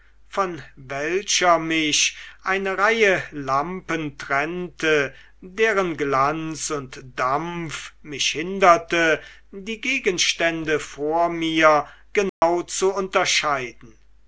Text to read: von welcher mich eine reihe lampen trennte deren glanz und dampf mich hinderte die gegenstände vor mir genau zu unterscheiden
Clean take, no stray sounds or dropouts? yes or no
no